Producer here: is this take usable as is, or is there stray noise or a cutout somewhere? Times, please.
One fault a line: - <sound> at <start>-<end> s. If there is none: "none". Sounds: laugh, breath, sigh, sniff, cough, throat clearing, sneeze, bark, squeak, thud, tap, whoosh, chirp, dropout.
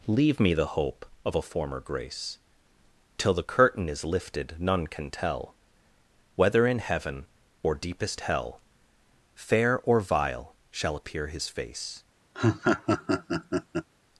- laugh at 12.3-13.9 s